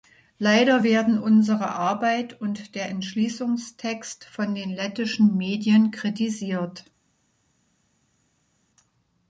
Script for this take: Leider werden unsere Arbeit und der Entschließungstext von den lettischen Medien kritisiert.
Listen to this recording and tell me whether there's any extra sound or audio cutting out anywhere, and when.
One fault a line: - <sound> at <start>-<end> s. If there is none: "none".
none